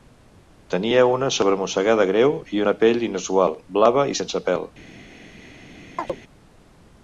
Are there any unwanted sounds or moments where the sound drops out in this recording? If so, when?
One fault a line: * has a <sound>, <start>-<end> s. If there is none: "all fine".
* has a chirp, 6.0-6.2 s